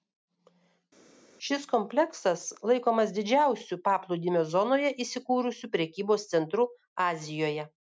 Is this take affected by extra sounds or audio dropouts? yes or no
no